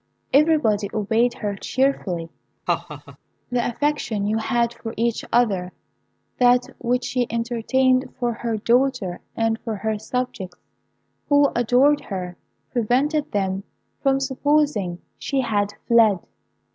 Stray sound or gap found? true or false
true